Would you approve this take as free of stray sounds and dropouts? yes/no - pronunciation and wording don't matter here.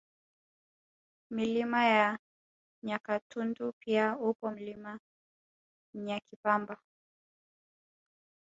yes